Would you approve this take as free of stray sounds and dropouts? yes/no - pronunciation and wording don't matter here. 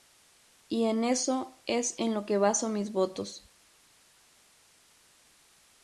yes